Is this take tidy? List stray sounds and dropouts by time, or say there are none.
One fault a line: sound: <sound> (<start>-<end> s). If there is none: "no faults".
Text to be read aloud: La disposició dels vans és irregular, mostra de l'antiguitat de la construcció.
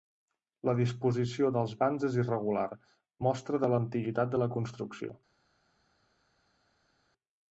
no faults